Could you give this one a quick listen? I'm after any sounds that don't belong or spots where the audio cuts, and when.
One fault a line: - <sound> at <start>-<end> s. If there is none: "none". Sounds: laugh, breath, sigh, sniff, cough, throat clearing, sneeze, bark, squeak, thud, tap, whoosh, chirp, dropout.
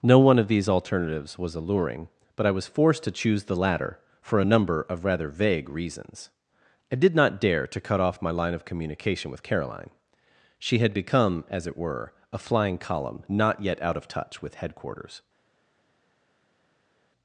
none